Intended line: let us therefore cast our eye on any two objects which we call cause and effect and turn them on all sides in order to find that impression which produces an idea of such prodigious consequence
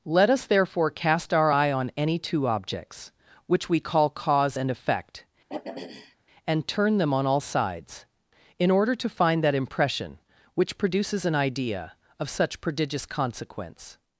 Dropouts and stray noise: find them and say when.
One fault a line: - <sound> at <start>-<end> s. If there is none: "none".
- throat clearing at 5.5-6.2 s